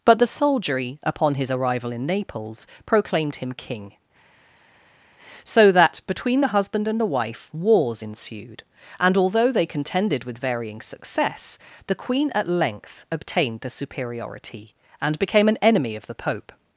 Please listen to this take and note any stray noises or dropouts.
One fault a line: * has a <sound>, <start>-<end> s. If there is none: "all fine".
all fine